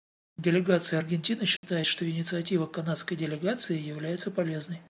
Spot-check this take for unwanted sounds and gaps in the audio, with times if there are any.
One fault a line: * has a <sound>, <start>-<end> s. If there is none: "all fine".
* has a dropout, 1.6-1.6 s